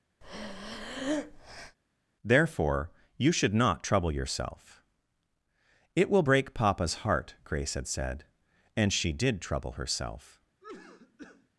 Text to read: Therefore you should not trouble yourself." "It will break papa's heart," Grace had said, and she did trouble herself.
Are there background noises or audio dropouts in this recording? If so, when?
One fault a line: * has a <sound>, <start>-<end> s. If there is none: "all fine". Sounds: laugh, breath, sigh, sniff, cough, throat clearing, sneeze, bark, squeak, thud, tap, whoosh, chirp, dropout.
* has a breath, 0.2-1.8 s
* has a cough, 10.6-11.5 s